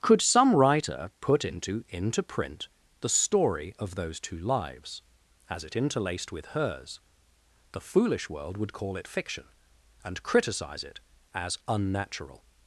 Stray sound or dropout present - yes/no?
no